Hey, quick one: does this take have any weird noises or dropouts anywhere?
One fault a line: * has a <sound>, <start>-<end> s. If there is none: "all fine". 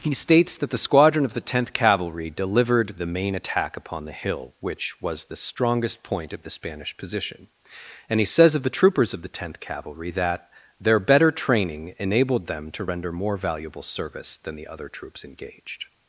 all fine